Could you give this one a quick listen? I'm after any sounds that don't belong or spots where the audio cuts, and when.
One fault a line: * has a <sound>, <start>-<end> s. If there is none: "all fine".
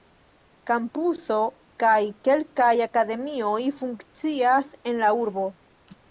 all fine